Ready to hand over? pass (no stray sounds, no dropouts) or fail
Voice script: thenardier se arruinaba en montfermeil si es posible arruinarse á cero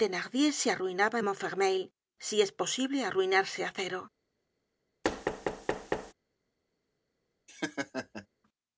fail